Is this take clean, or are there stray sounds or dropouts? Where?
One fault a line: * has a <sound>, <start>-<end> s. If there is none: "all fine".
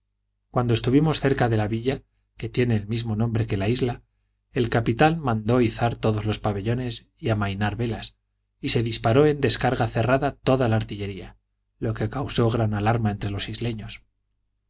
all fine